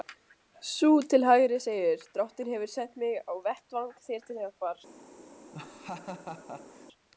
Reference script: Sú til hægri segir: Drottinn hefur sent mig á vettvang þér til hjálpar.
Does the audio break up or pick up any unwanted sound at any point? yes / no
yes